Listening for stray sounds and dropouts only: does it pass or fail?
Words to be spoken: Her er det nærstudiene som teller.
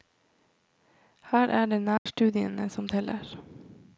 fail